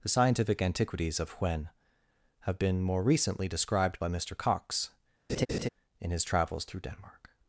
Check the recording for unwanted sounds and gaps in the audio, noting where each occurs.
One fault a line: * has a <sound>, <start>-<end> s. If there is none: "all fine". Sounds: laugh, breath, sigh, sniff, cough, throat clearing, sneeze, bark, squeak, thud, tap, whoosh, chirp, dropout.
* has a laugh, 5.3-5.7 s